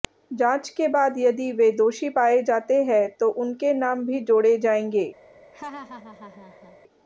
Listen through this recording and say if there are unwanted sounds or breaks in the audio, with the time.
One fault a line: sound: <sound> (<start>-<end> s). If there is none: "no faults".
sound: laugh (5.5-6.8 s)